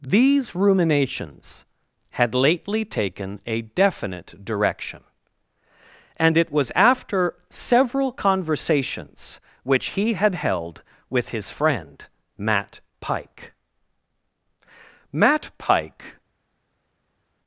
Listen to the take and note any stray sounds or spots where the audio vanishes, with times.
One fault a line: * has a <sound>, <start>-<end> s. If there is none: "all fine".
all fine